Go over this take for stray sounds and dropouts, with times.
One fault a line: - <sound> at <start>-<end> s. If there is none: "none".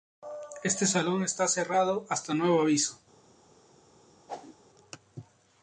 - whoosh at 4.3-4.6 s